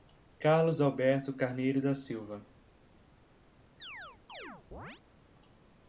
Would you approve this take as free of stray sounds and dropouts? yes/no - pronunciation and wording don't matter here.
no